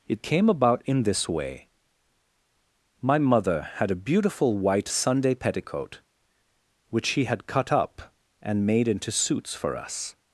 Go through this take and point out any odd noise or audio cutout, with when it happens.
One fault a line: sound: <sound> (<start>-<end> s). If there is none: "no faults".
no faults